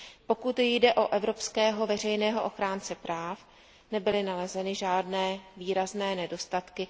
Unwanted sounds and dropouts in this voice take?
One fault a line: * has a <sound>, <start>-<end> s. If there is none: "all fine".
all fine